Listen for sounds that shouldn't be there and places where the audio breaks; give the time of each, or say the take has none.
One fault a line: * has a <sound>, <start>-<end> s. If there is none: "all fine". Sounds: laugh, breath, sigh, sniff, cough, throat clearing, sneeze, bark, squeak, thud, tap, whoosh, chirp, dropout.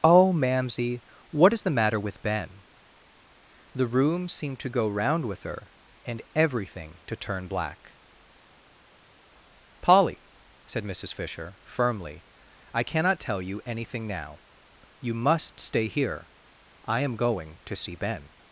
all fine